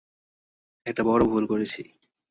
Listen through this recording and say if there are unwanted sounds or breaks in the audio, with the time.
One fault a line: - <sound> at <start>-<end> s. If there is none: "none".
none